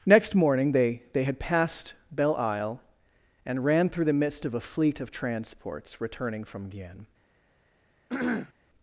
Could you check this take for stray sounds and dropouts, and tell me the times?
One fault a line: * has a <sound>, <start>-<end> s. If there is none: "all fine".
* has a throat clearing, 8.1-8.5 s